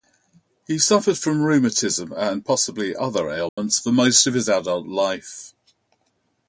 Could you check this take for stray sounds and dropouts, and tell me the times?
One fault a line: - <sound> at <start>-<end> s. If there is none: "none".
- dropout at 3.5-3.6 s